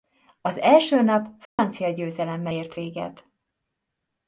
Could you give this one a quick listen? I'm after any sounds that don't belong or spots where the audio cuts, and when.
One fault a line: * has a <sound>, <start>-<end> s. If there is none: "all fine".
* has a dropout, 1.5-1.6 s